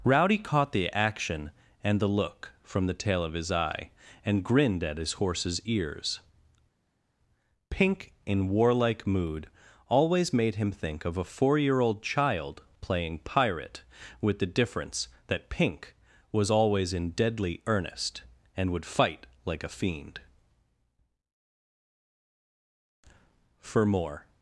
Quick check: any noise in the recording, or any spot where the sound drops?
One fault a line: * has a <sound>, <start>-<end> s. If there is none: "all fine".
all fine